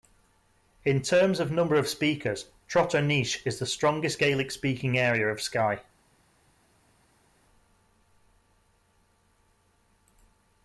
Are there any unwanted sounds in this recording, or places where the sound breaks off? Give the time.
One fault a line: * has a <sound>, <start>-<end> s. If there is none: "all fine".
all fine